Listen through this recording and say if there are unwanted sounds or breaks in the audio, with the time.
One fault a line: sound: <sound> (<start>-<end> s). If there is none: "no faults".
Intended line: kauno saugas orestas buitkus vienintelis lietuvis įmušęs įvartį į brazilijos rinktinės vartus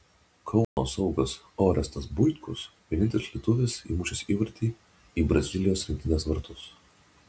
sound: dropout (0.6-0.8 s)